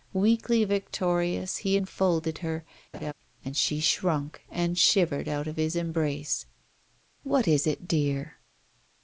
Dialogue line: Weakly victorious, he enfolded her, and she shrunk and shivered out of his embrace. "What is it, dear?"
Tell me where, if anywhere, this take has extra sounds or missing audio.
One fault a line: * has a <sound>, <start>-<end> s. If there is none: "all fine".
* has a laugh, 2.9-3.1 s